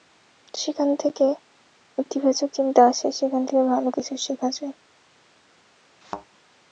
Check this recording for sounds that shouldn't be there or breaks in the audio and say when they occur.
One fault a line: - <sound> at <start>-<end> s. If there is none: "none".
- thud at 6.0-6.3 s